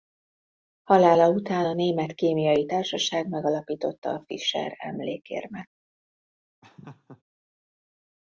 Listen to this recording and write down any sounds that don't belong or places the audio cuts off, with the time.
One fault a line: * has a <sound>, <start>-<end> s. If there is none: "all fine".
* has a laugh, 6.6-7.2 s